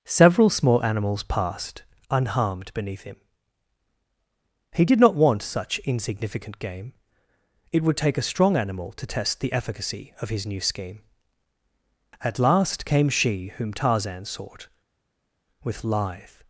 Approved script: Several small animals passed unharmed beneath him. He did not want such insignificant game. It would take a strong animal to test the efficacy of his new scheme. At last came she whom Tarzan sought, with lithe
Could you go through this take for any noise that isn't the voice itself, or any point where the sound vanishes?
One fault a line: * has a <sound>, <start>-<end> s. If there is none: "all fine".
all fine